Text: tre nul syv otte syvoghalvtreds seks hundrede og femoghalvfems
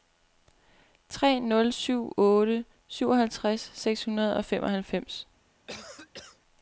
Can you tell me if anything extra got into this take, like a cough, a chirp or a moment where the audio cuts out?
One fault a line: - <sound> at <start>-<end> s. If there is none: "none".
- cough at 5.7-6.4 s